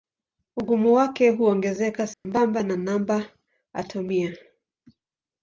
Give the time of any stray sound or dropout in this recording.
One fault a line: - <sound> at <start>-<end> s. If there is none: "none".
- dropout at 2.1-2.2 s